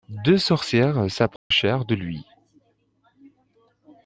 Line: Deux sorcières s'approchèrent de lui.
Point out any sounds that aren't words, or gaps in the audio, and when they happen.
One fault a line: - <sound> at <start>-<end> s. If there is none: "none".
- dropout at 1.4-1.5 s